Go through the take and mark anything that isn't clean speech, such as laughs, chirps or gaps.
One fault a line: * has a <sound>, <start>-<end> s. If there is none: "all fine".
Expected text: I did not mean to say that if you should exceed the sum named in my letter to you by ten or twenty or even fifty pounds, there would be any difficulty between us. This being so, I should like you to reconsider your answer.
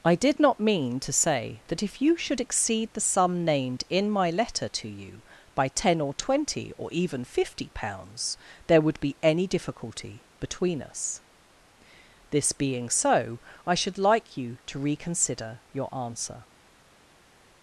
all fine